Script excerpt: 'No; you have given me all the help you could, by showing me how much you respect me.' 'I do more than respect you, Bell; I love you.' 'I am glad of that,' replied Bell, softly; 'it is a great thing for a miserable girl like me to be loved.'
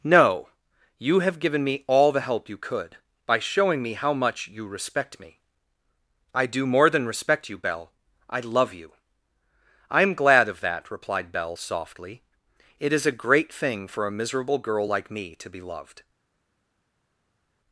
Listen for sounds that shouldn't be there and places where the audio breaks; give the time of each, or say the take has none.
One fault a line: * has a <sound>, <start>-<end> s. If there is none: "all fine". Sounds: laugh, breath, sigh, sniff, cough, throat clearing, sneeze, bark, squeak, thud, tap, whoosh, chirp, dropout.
all fine